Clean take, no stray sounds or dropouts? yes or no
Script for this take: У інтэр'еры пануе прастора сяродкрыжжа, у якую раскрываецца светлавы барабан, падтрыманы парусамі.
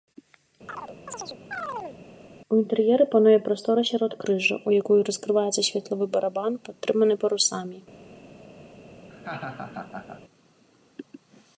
no